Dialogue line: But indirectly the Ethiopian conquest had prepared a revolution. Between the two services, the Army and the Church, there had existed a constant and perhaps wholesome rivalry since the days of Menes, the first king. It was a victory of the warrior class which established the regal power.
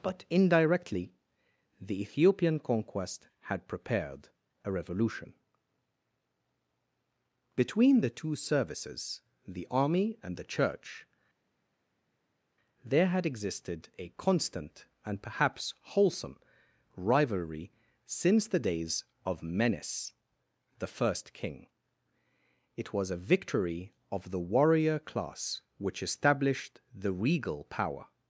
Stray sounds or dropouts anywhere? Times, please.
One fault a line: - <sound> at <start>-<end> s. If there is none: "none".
none